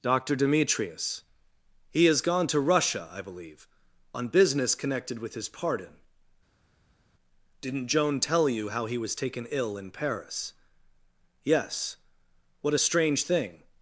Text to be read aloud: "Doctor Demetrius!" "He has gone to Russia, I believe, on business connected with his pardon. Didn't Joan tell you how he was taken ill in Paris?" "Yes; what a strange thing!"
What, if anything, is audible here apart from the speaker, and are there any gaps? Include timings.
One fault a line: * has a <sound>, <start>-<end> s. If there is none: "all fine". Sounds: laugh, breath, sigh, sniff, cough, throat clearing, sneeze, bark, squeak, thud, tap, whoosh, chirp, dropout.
all fine